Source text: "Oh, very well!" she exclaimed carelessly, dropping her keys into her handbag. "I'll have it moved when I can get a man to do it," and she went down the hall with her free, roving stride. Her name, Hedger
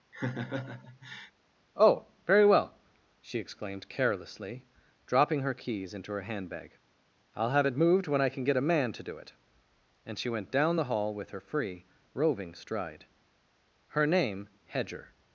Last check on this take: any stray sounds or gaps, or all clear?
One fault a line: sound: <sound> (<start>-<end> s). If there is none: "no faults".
sound: laugh (0.1-1.3 s)